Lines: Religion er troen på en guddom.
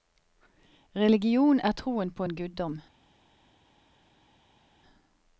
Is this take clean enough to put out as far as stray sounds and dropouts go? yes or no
yes